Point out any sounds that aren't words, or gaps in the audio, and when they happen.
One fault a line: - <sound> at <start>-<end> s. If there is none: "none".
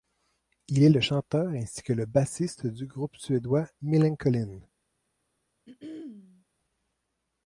- throat clearing at 5.7-6.4 s